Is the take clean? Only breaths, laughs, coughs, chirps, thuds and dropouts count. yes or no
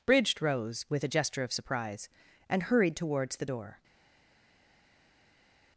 yes